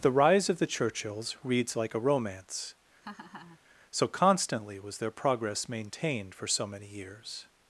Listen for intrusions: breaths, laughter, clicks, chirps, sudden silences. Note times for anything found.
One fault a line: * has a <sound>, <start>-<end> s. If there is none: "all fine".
* has a laugh, 3.0-3.6 s